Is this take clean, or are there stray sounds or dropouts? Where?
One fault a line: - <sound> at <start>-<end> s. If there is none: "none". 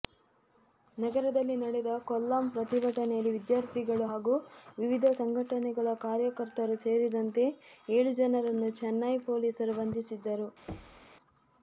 - thud at 10.7-11.1 s